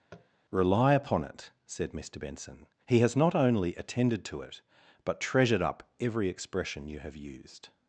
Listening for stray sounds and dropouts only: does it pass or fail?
fail